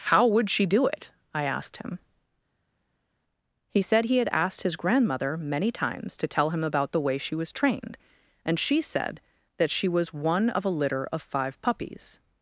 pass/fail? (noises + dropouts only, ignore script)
pass